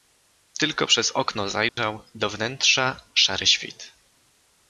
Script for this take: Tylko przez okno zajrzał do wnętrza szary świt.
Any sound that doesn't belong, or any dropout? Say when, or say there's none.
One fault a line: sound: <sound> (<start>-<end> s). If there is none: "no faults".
sound: dropout (1.7-1.8 s)